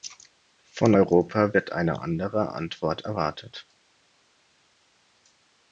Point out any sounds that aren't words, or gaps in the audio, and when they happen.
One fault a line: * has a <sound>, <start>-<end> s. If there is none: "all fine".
all fine